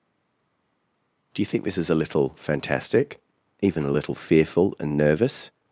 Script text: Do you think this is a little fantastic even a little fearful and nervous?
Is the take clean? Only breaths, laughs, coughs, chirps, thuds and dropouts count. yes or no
yes